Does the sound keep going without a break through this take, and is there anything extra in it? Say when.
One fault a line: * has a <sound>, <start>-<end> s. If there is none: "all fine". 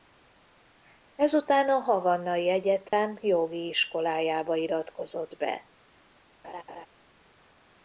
* has a dropout, 2.9-2.9 s
* has a laugh, 6.4-6.9 s